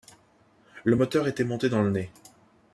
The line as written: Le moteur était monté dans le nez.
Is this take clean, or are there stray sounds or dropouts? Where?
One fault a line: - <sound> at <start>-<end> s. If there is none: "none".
none